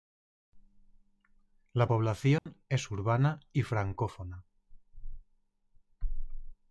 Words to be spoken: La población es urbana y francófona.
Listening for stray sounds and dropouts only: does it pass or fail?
fail